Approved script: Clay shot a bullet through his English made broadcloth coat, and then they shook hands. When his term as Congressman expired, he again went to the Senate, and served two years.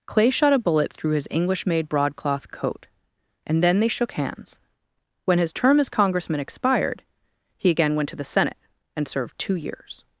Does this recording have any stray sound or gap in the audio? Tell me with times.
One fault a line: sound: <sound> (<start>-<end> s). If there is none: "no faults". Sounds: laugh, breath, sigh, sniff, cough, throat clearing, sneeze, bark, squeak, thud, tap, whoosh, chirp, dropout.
no faults